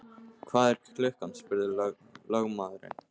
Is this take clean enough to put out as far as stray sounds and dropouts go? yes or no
yes